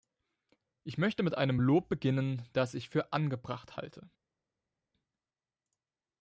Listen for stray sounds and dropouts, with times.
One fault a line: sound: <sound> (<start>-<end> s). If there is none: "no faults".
no faults